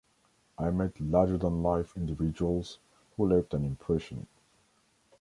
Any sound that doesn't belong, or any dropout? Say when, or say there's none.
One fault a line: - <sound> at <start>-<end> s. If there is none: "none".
none